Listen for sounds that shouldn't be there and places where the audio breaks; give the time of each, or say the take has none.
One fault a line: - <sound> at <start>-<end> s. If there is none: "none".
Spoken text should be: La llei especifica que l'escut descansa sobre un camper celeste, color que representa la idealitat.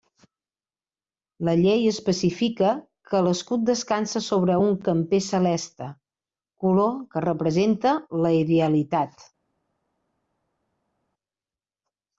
none